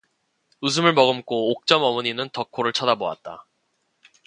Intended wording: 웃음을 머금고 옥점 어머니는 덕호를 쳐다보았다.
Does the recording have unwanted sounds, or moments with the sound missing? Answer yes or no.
no